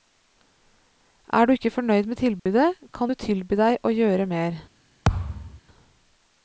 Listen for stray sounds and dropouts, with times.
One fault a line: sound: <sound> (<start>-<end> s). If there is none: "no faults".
sound: dropout (2.4-2.5 s)
sound: thud (5.1-5.6 s)